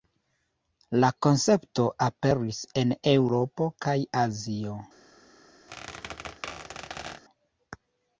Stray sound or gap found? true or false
true